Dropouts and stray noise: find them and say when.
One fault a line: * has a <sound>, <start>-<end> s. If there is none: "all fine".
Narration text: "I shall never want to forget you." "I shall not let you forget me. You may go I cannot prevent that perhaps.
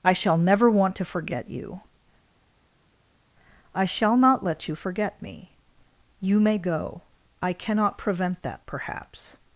all fine